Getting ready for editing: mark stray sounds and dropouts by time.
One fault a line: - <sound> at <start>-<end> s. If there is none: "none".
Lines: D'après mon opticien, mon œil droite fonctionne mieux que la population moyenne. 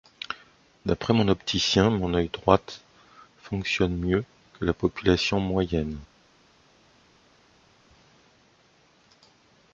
none